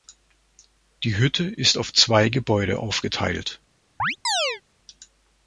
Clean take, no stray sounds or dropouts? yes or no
no